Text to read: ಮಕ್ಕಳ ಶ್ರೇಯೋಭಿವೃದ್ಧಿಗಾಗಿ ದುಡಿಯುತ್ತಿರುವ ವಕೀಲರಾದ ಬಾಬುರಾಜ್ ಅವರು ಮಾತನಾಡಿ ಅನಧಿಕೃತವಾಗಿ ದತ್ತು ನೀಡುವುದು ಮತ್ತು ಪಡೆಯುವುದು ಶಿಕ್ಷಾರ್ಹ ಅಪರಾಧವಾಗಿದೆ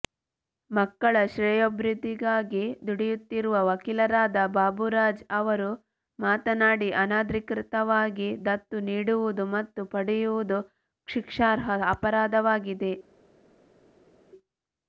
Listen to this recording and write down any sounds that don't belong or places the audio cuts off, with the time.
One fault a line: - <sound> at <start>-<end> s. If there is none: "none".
none